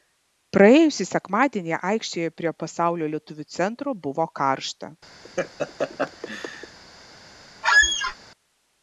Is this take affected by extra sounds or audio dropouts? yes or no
yes